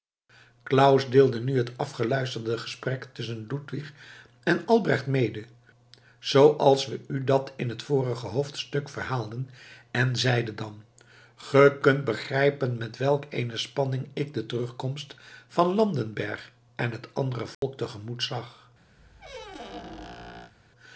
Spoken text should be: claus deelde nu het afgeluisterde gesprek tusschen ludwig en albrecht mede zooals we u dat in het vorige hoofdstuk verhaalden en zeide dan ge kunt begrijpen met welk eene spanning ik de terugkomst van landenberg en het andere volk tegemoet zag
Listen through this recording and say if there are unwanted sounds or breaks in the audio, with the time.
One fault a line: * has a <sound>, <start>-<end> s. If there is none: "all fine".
* has a dropout, 17.5-17.6 s
* has a squeak, 19.0-20.5 s